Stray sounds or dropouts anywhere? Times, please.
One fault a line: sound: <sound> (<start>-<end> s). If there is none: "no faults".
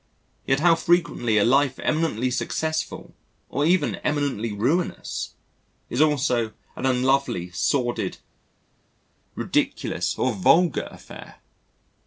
no faults